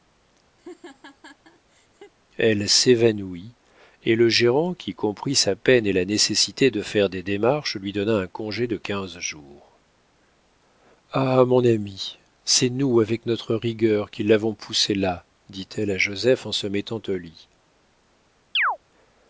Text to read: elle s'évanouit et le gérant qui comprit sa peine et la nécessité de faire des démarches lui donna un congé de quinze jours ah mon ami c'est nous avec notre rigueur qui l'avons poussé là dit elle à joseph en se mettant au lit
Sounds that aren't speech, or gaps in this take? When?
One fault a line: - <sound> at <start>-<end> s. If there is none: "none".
- laugh at 0.6-2.1 s
- chirp at 18.5-18.8 s